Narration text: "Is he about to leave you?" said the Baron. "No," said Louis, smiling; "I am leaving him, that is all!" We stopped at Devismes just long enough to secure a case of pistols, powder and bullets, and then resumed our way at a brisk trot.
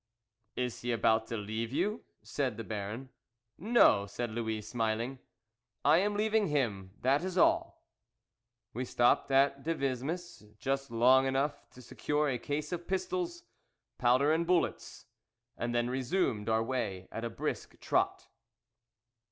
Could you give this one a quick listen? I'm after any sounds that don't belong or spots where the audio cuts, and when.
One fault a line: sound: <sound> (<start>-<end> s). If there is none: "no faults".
no faults